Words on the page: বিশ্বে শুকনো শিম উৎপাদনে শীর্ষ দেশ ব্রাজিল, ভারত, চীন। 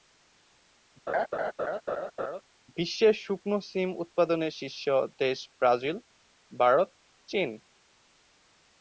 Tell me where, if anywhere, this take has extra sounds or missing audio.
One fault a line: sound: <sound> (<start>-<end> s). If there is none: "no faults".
sound: laugh (1.1-2.4 s)